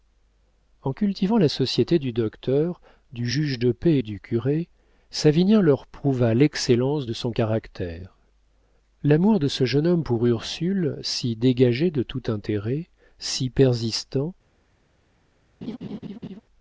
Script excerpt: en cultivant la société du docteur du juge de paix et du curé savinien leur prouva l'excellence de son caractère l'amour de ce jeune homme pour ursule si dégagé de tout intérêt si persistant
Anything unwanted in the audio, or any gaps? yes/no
yes